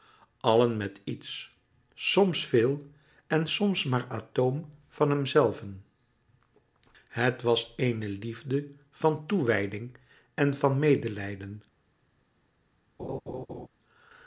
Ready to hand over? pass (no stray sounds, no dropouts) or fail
fail